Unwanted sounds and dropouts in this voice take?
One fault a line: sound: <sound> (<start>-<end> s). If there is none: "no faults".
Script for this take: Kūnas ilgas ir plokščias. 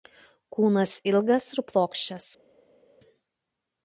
no faults